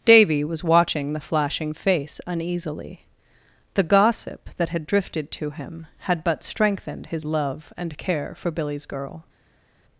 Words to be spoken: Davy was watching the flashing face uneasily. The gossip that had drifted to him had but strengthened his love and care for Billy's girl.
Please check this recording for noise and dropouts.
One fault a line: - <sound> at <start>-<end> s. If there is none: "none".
none